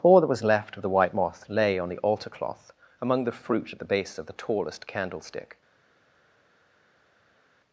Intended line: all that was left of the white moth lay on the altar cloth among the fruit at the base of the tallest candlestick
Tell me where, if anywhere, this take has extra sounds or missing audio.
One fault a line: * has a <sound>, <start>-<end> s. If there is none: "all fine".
all fine